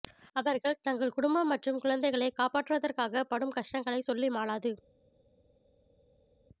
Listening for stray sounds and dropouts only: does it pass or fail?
pass